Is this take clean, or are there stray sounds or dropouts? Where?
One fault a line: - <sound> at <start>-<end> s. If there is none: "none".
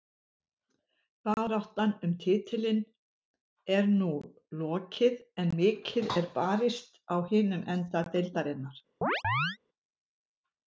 - chirp at 9.0-9.6 s